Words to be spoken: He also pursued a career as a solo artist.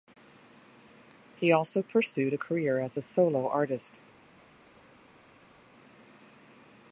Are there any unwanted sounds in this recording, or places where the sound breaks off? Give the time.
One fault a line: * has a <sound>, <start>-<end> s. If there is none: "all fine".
all fine